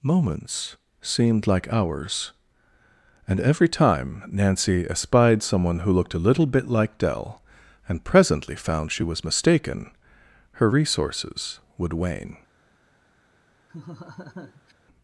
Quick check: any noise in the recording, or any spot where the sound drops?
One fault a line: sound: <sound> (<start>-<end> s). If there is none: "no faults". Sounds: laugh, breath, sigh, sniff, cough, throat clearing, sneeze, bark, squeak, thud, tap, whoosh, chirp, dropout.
sound: laugh (13.7-14.7 s)